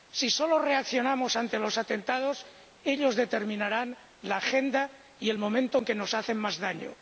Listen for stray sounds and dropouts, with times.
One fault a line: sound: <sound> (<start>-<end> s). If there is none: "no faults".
no faults